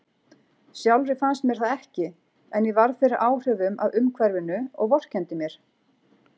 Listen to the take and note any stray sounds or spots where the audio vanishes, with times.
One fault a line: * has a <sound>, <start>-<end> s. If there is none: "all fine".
all fine